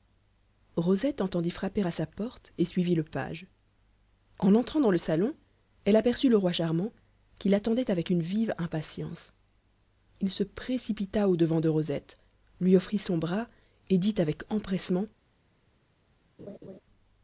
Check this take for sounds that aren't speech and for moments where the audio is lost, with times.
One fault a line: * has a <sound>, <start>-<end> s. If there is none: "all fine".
* has a laugh, 16.4-16.8 s